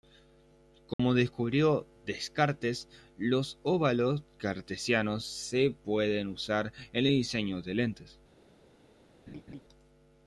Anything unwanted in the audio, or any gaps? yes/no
yes